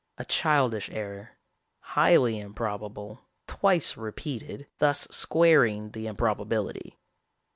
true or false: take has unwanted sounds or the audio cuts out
false